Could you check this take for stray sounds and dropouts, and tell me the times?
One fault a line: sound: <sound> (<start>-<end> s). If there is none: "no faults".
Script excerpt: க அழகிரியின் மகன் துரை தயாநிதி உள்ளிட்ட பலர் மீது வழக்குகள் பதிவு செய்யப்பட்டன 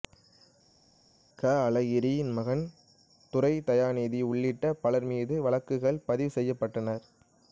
no faults